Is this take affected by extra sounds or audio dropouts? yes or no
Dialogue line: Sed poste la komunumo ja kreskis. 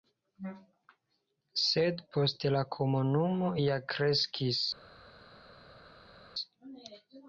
no